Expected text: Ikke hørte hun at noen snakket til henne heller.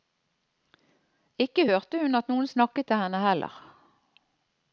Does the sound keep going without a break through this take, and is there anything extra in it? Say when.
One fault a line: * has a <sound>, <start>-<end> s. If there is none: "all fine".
all fine